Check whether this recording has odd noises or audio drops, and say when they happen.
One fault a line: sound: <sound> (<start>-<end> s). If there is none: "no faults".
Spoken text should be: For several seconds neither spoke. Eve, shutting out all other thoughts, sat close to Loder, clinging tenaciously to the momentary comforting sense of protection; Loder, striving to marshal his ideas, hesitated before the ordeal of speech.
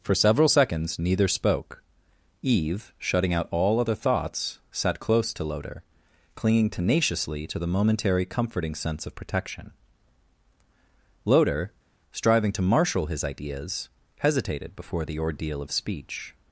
no faults